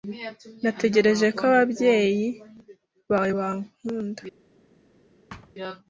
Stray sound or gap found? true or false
true